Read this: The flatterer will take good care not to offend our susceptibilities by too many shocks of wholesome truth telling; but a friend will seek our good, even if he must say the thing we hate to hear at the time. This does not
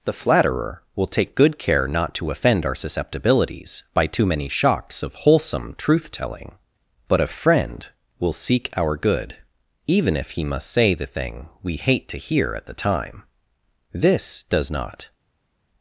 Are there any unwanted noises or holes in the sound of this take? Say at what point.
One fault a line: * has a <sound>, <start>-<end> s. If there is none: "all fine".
all fine